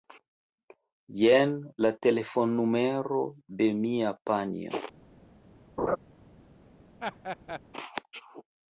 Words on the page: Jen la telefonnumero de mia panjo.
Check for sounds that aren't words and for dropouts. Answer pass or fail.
fail